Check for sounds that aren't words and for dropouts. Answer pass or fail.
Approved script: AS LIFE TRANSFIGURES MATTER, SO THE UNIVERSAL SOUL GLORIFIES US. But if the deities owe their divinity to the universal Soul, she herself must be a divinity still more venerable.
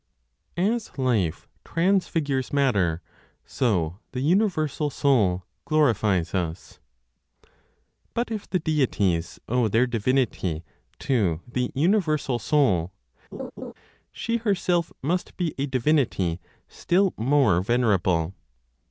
fail